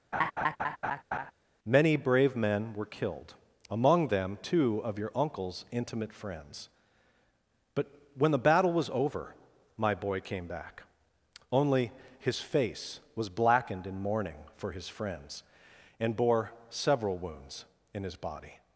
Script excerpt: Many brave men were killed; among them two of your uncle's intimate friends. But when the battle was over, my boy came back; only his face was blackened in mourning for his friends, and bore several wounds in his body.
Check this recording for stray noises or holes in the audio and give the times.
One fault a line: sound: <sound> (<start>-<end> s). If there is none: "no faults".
sound: laugh (0.1-1.3 s)